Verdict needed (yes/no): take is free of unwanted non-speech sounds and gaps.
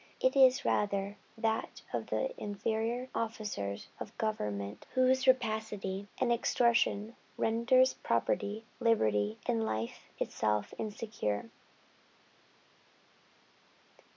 yes